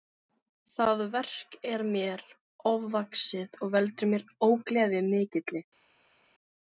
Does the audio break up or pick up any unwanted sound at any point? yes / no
no